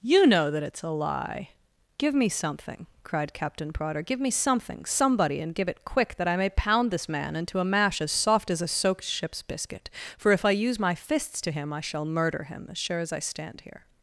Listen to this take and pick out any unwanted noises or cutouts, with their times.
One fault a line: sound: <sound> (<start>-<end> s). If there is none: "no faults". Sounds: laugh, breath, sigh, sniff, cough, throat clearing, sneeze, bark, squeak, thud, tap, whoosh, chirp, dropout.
no faults